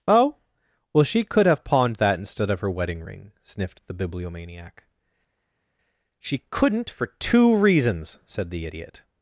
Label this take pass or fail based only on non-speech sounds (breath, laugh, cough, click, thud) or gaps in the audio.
pass